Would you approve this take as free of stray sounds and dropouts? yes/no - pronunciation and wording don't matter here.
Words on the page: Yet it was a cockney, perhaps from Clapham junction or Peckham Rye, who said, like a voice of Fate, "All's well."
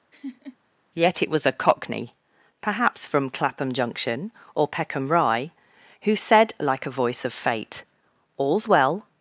no